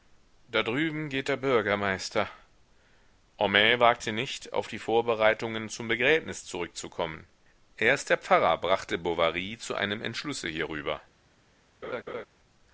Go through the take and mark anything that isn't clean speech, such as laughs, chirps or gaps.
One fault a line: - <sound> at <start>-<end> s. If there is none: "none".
- laugh at 11.8-12.3 s